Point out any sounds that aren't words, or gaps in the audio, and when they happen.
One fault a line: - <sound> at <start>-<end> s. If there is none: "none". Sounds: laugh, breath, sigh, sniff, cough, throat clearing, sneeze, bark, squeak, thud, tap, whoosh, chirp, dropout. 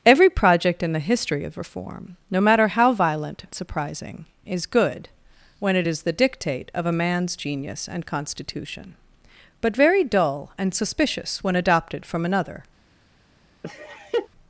- laugh at 13.6-14.3 s